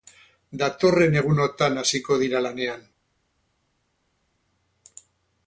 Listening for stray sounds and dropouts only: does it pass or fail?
pass